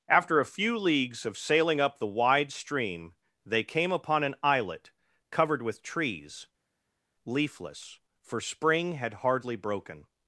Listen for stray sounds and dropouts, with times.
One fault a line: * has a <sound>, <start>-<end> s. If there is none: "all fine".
all fine